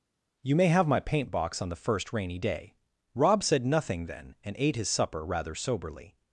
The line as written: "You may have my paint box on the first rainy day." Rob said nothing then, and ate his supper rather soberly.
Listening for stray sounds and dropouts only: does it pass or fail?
pass